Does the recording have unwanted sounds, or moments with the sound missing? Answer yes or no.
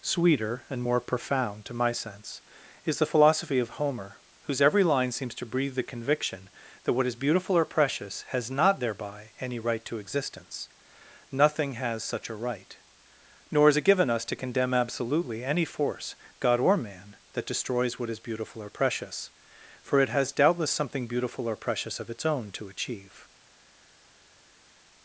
no